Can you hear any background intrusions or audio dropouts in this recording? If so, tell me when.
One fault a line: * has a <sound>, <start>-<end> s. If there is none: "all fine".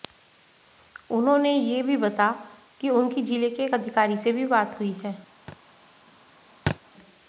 * has a thud, 5.5-5.6 s
* has a thud, 6.7-6.8 s